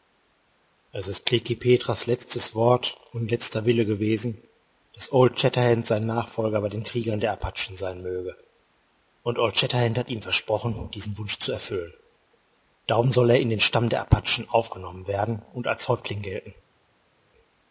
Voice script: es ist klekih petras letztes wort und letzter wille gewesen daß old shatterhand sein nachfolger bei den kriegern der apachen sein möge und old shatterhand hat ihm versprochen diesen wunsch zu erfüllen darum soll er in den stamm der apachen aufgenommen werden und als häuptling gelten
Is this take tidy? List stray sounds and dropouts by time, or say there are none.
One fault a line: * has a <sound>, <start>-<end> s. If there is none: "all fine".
all fine